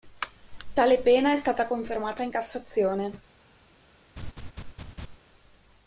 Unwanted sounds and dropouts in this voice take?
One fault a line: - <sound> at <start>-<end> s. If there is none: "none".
- laugh at 4.2-5.2 s